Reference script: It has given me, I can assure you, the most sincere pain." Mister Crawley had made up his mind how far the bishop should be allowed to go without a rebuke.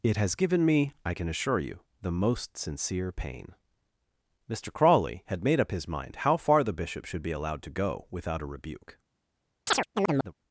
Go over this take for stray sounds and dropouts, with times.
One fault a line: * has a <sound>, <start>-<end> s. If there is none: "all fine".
* has a chirp, 9.7-10.3 s